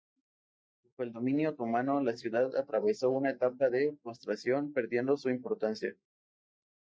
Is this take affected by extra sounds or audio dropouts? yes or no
no